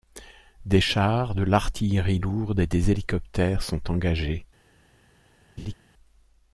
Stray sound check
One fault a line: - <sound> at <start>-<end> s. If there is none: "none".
- laugh at 5.6-5.7 s